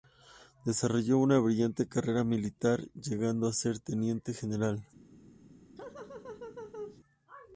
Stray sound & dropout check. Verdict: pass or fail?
fail